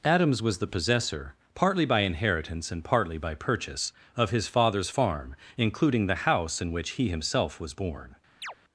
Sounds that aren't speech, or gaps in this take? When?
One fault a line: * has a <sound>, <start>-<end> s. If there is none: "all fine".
* has a chirp, 8.4-8.5 s